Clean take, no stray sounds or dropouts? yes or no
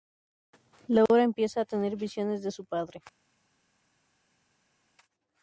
yes